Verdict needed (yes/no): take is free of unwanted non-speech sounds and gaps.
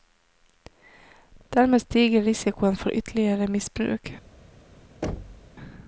no